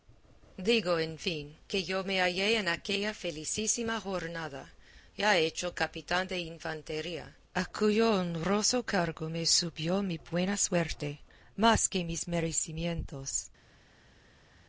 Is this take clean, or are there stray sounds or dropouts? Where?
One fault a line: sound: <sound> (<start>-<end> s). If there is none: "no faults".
no faults